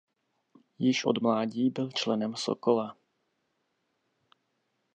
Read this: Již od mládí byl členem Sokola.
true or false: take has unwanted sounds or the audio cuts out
false